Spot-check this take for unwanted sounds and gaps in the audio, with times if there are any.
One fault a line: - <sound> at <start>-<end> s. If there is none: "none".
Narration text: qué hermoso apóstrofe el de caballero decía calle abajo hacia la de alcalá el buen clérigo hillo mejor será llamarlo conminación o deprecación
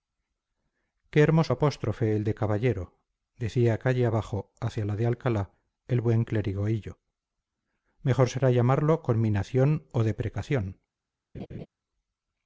- laugh at 11.3-11.7 s